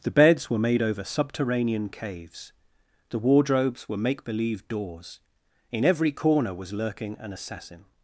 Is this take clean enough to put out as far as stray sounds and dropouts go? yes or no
yes